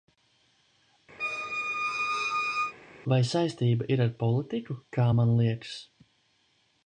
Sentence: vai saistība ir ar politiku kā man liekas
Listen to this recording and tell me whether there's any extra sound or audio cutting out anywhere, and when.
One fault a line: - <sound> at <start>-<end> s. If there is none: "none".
- squeak at 1.2-2.7 s